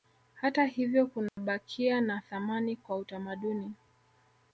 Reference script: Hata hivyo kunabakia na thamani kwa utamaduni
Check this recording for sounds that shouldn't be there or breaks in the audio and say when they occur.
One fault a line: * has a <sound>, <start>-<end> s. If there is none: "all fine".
* has a dropout, 1.3-1.4 s